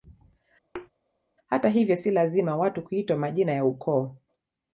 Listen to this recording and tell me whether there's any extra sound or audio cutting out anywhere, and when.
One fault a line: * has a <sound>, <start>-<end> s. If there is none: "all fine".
* has a thud, 0.7-0.9 s